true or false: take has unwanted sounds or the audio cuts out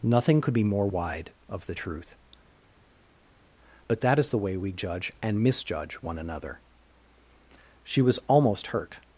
false